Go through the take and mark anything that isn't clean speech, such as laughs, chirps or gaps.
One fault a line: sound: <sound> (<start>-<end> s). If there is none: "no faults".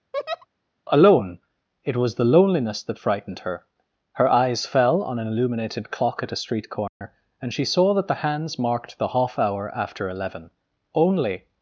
sound: laugh (0.1-0.5 s)
sound: dropout (6.9-7.0 s)